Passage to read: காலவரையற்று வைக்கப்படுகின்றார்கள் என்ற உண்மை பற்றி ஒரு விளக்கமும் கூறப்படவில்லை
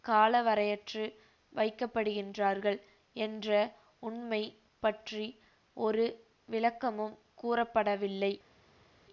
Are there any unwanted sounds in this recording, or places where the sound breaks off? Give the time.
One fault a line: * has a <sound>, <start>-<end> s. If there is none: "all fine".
all fine